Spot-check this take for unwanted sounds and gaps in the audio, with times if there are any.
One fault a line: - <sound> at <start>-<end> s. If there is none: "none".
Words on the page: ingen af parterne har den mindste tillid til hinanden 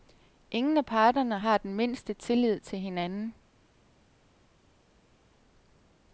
none